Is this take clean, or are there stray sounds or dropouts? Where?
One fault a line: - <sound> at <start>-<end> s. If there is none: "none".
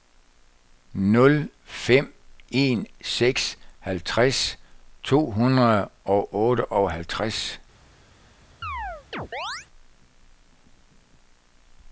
- chirp at 8.6-9.7 s